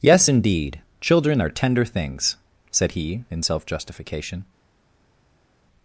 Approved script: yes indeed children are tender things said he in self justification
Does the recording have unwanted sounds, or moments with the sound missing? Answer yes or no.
no